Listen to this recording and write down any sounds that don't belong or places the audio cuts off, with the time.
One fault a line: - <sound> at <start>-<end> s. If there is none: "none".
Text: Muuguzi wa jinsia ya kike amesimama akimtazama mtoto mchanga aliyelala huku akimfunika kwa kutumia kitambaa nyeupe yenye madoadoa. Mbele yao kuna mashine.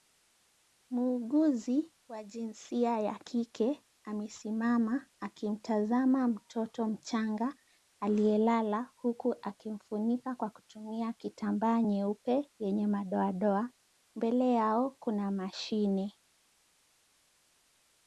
none